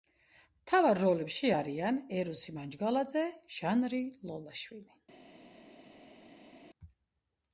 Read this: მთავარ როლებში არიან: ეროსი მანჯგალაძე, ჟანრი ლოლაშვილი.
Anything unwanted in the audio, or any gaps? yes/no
no